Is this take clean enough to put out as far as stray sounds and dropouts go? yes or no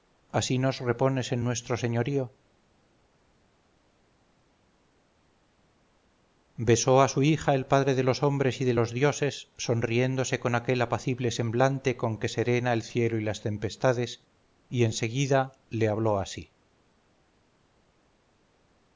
yes